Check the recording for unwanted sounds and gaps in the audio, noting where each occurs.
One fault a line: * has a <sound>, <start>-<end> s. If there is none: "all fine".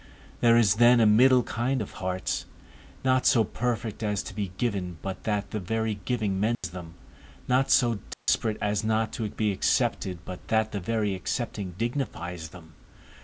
* has a dropout, 6.5-6.6 s
* has a dropout, 8.1-8.3 s